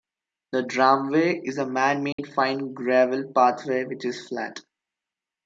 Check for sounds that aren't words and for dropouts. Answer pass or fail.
fail